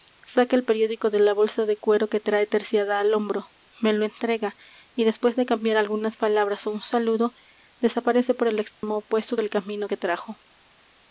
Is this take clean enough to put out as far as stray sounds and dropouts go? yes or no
no